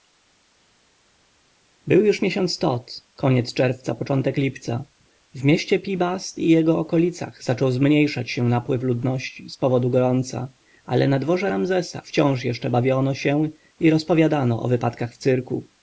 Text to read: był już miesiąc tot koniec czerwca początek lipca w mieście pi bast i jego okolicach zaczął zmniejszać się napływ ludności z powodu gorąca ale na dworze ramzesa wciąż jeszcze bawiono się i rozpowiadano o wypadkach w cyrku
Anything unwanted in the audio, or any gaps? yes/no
no